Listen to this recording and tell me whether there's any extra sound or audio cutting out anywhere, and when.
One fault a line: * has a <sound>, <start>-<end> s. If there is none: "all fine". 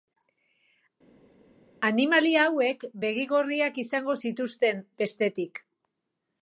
all fine